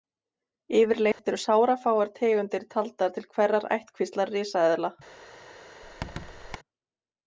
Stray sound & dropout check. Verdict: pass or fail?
fail